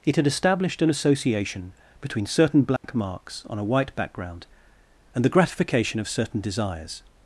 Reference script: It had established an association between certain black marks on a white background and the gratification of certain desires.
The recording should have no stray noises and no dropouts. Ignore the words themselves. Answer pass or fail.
fail